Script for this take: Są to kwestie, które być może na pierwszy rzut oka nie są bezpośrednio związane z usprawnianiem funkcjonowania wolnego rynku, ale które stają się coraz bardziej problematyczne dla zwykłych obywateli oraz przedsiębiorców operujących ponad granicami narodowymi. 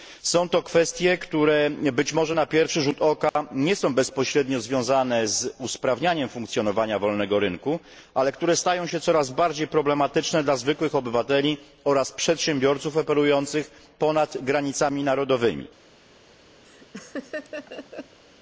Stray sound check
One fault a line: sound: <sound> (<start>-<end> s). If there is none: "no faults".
sound: dropout (3.3-3.4 s)
sound: laugh (16.6-18.2 s)